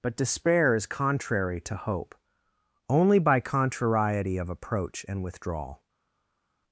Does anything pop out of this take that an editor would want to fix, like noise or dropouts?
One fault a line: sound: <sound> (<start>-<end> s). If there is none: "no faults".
no faults